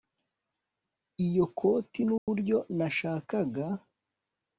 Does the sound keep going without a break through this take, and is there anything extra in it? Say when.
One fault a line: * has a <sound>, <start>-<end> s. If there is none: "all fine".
* has a dropout, 2.2-2.3 s